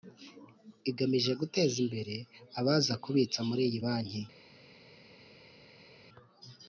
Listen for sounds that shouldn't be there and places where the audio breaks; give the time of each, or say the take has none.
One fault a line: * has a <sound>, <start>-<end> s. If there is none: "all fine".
all fine